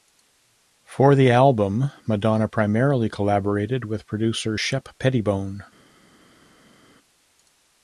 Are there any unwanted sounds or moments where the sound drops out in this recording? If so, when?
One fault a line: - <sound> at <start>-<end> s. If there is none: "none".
none